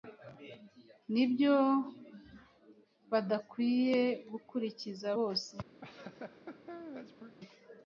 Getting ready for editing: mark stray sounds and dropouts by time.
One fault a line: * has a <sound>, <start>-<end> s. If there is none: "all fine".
* has a laugh, 5.8-7.4 s